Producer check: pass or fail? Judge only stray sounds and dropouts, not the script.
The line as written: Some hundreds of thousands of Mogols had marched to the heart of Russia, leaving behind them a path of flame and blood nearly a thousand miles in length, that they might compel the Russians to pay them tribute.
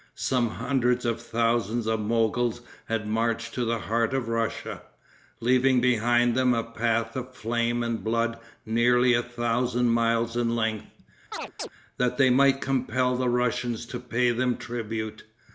fail